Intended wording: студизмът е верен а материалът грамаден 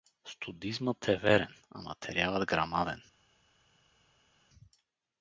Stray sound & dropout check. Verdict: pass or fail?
pass